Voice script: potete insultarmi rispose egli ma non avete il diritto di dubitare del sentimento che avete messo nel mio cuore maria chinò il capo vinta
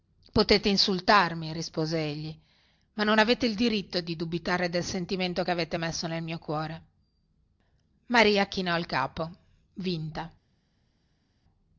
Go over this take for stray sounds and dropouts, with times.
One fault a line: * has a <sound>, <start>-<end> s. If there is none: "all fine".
all fine